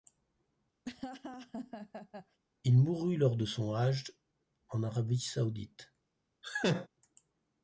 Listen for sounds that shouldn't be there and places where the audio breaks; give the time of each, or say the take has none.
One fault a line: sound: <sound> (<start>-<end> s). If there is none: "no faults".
sound: laugh (0.8-2.4 s)
sound: laugh (6.4-6.9 s)